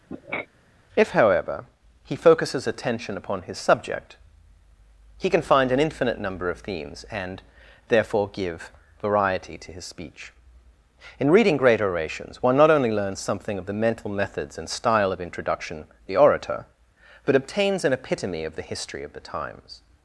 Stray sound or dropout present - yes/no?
yes